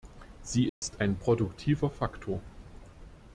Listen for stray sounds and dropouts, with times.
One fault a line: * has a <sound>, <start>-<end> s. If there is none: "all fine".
* has a dropout, 0.7-0.8 s